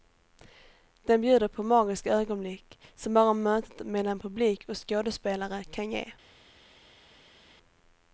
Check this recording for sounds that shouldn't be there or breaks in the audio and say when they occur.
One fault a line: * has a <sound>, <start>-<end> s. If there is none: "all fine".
all fine